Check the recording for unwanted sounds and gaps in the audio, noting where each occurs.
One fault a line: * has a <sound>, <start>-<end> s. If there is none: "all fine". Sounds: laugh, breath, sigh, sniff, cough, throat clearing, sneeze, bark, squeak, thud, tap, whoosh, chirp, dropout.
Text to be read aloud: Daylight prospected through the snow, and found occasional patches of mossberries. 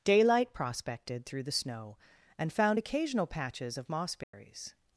* has a dropout, 4.2-4.3 s